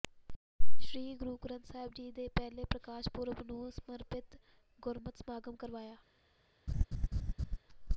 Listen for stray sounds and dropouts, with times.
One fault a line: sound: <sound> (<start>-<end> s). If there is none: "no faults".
sound: laugh (6.7-7.6 s)